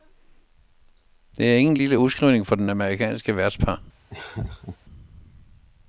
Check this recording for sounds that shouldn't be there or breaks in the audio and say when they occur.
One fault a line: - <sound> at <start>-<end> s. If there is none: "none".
- laugh at 4.1-4.8 s